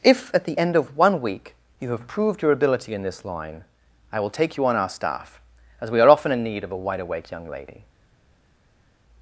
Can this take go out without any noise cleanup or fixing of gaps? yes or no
yes